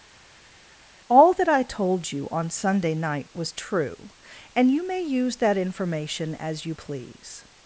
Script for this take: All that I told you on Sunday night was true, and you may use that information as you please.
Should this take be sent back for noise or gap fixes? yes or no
no